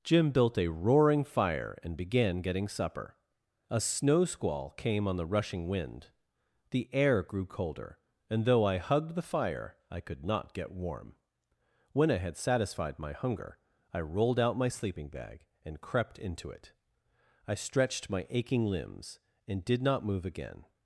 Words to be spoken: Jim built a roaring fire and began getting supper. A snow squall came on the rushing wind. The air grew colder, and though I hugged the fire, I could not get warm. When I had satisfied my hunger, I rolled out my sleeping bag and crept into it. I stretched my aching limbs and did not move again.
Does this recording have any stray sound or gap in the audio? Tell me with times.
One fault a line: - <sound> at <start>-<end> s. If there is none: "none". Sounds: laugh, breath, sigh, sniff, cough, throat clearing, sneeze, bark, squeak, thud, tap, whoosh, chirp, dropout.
none